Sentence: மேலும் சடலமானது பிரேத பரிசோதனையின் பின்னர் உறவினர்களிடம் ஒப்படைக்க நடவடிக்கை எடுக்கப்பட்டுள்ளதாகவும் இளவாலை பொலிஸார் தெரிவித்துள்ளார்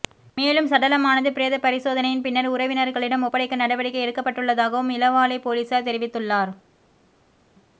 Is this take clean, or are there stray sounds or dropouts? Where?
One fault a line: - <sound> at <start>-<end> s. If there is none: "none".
none